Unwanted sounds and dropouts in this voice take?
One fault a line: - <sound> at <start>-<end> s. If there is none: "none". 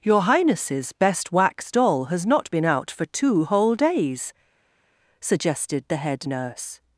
none